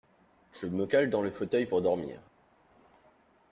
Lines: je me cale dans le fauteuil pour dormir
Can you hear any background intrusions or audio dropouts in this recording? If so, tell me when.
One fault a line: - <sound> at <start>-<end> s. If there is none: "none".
none